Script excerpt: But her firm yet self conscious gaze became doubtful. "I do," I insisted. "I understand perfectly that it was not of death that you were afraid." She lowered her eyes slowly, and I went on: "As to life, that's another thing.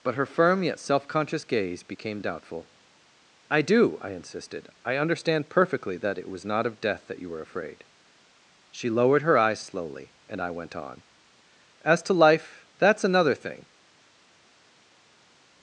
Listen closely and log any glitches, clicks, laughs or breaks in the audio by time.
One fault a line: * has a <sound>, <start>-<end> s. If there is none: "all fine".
all fine